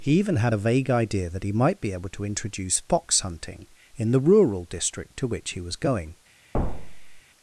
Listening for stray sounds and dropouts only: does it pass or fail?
fail